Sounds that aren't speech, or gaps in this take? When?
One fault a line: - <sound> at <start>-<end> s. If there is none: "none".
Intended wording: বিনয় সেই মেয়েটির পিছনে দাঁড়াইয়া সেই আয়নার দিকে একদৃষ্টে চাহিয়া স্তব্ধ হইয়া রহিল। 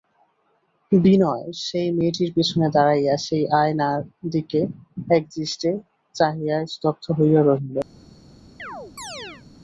- chirp at 8.6-9.4 s